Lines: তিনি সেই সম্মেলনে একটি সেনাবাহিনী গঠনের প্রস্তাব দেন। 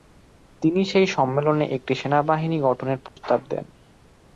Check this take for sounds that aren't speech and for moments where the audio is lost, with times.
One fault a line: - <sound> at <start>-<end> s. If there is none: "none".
- dropout at 3.1-3.2 s